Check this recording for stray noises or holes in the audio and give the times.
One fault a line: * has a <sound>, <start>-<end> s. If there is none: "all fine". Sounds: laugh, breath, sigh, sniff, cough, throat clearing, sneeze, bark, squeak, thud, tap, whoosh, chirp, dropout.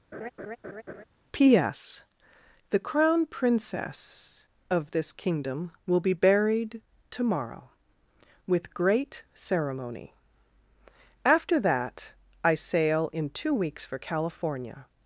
* has a laugh, 0.1-1.0 s